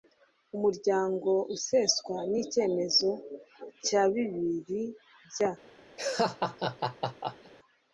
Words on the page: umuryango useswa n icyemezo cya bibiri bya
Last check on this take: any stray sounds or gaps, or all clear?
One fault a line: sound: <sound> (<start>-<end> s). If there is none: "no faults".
sound: laugh (6.0-7.5 s)